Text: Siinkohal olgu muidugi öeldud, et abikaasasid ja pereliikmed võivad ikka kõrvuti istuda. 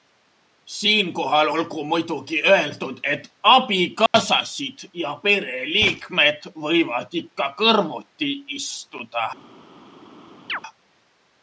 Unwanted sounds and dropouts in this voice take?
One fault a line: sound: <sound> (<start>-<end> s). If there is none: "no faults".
sound: dropout (4.1-4.1 s)
sound: chirp (10.5-10.6 s)